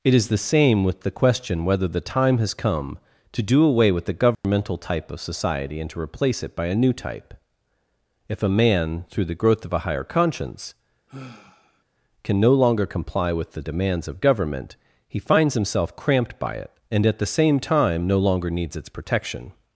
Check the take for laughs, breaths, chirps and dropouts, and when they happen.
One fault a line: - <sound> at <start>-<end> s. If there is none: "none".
- dropout at 4.3-4.4 s
- sigh at 11.1-11.8 s